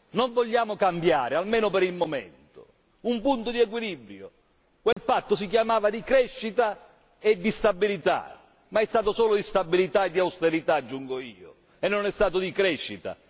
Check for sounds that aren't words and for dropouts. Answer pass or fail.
fail